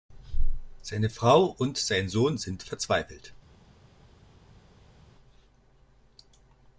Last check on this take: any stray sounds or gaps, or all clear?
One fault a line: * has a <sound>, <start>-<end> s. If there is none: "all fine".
all fine